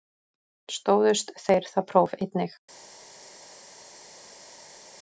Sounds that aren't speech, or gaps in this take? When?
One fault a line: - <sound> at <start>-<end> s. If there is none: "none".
none